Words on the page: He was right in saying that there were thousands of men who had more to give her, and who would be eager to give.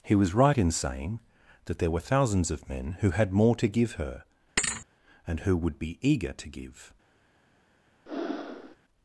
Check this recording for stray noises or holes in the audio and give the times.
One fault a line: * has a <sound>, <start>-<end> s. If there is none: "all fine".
* has a thud, 4.6-4.9 s
* has a breath, 8.1-8.8 s